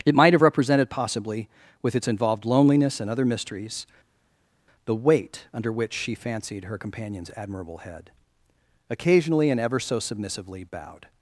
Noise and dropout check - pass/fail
pass